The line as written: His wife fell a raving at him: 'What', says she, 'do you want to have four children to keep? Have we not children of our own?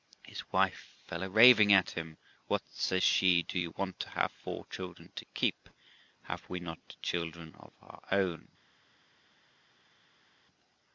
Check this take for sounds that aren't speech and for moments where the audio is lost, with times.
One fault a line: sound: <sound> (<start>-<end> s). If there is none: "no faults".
no faults